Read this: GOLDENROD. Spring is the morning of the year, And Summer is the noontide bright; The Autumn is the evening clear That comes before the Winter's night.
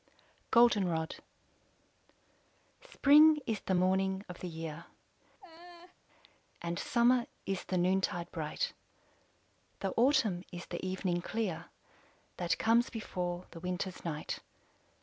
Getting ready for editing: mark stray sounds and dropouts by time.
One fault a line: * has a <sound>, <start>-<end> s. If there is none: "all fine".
* has a laugh, 5.4-6.0 s